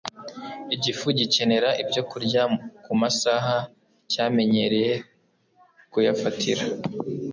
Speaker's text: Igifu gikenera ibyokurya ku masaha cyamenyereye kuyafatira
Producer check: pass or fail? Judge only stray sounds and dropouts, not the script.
pass